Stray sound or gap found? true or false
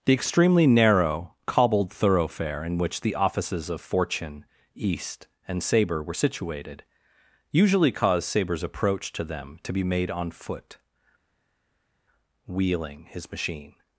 false